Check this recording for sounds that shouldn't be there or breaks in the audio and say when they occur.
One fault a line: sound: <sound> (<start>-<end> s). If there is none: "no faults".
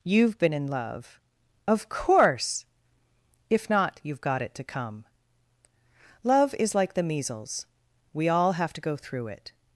no faults